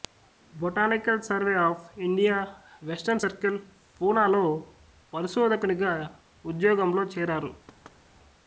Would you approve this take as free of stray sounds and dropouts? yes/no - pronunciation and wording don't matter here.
no